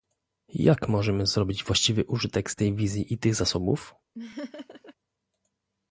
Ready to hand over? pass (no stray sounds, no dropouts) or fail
fail